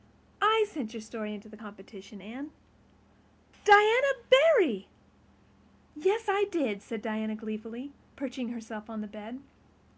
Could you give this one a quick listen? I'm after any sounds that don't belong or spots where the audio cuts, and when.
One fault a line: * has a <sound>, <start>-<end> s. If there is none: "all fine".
all fine